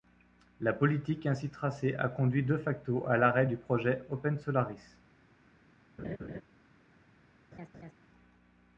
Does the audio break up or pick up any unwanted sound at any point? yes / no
yes